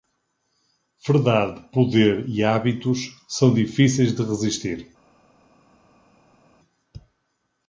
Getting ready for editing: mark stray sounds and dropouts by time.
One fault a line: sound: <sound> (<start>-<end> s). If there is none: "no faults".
no faults